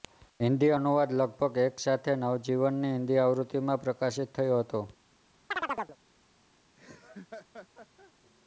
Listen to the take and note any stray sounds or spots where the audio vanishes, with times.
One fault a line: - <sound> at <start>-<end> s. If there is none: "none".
- chirp at 5.5-6.0 s
- laugh at 6.8-8.1 s